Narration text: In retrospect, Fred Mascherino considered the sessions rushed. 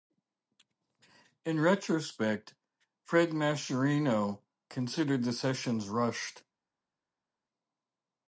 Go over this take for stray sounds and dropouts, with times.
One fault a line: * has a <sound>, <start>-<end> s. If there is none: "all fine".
all fine